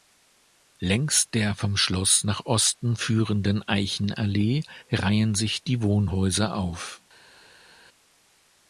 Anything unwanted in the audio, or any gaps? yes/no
no